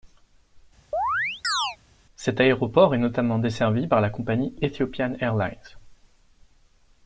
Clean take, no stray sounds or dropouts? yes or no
no